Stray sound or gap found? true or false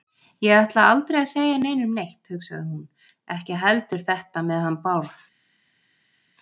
false